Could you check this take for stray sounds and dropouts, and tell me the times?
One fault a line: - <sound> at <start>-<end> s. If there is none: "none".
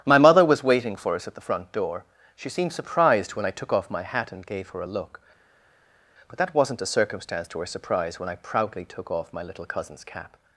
none